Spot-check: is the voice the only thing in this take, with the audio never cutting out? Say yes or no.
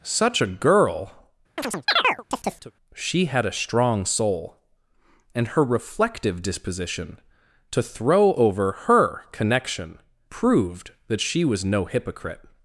no